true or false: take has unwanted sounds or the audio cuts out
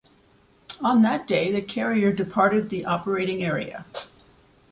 false